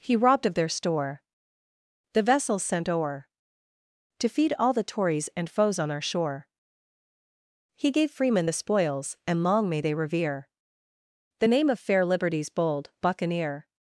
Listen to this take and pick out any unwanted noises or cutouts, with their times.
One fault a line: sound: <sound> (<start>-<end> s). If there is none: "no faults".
no faults